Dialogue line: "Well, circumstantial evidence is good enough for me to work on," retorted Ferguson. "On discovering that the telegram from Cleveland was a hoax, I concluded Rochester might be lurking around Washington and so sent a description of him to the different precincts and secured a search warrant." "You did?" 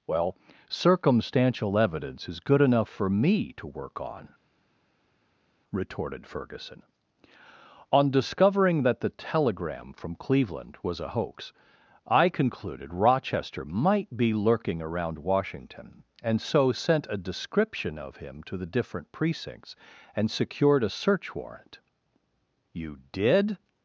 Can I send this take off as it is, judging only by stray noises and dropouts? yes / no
yes